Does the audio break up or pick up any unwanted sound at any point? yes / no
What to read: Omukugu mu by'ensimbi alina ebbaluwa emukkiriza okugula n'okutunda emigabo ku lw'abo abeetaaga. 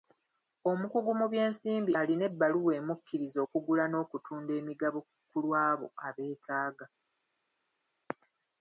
no